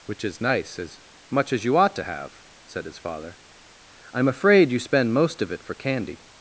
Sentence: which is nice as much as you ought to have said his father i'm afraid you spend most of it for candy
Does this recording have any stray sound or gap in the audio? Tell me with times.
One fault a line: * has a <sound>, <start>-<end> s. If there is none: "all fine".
all fine